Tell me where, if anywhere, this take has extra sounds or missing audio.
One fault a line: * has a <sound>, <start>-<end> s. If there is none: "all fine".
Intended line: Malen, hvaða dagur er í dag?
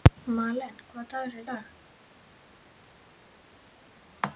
all fine